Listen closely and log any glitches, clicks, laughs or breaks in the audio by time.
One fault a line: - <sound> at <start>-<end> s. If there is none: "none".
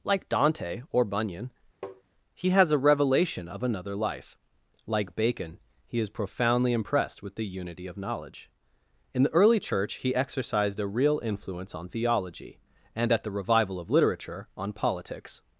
- tap at 1.8-2.0 s